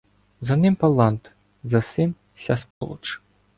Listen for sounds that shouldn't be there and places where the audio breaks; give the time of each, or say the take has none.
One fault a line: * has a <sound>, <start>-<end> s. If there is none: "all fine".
* has a dropout, 2.7-2.8 s